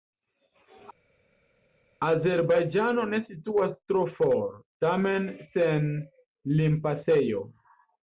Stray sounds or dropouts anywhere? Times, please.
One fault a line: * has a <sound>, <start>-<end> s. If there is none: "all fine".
all fine